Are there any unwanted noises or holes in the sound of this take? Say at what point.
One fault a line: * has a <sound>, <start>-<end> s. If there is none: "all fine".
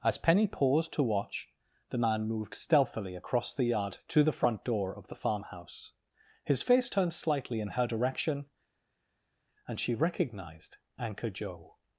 all fine